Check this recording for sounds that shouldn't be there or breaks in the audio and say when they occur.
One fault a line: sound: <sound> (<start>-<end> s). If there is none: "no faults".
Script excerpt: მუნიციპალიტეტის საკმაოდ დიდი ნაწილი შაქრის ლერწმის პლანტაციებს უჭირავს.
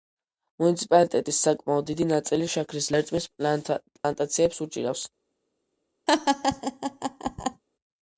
sound: dropout (4.0-4.0 s)
sound: laugh (6.1-7.6 s)